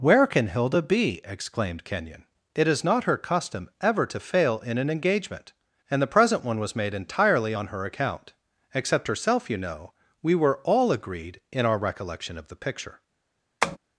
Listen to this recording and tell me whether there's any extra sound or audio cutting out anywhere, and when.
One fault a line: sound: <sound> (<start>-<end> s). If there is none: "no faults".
sound: tap (13.6-13.8 s)